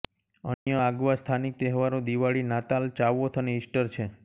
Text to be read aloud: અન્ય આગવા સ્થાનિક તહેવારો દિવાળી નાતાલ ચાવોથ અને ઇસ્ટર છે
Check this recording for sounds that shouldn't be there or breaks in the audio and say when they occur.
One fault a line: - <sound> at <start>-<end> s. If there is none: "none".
- dropout at 0.5-0.7 s